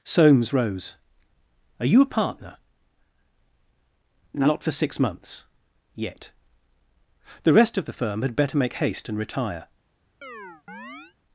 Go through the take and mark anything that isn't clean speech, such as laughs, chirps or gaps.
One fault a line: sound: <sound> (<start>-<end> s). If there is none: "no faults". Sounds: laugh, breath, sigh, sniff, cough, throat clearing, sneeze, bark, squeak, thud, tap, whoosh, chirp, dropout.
sound: chirp (10.2-11.2 s)